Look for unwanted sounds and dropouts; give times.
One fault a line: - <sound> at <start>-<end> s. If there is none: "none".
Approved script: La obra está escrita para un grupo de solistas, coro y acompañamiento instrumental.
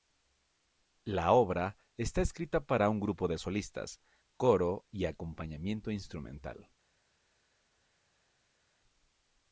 none